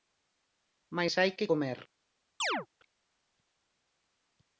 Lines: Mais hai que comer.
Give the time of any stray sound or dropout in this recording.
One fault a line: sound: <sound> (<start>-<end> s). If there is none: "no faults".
sound: chirp (2.4-2.7 s)